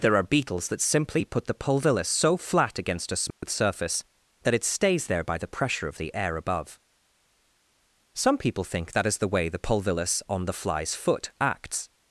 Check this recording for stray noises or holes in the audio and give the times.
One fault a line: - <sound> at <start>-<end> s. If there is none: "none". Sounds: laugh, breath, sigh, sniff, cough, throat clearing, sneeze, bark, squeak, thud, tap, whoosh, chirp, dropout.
- dropout at 3.3-3.4 s